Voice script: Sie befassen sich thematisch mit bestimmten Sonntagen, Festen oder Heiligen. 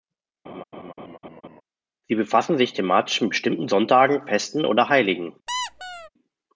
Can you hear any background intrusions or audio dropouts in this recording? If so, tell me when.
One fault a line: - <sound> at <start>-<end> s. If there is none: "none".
- laugh at 0.4-1.6 s
- squeak at 5.5-6.1 s